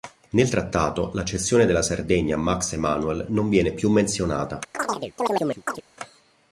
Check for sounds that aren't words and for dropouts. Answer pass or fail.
fail